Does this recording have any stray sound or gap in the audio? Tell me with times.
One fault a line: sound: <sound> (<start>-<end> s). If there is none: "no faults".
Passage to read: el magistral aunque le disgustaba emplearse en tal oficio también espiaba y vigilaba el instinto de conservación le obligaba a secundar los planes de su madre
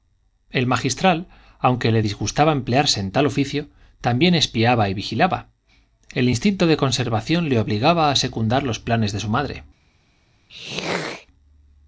sound: throat clearing (10.5-11.3 s)